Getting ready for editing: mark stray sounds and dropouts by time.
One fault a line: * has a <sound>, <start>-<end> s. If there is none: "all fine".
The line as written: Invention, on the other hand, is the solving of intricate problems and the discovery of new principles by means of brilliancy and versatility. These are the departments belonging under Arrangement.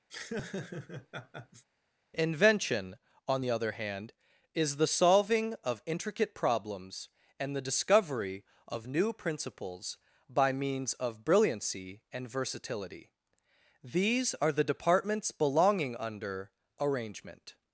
* has a laugh, 0.1-1.6 s